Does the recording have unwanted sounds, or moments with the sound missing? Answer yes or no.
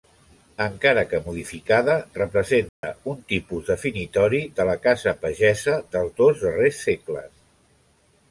yes